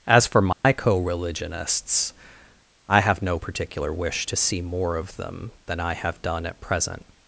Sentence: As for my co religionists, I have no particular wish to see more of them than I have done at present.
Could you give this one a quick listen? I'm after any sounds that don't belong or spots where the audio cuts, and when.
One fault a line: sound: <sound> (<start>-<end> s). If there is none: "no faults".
sound: dropout (0.5-0.6 s)